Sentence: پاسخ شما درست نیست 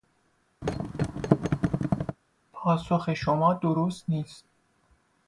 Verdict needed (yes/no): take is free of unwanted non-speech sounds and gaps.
no